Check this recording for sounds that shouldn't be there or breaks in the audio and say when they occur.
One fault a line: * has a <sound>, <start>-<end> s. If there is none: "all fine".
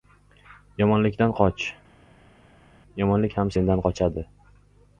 all fine